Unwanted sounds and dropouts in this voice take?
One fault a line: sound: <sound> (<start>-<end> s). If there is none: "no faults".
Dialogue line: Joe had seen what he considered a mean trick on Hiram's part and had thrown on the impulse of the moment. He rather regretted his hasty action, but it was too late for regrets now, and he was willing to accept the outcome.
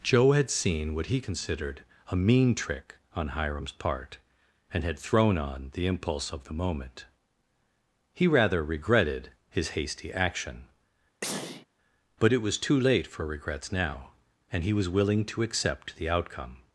sound: sneeze (11.2-11.7 s)